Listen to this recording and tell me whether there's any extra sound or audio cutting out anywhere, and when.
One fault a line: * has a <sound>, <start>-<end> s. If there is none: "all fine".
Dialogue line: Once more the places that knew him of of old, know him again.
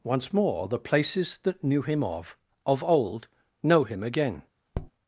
* has a tap, 4.7-4.9 s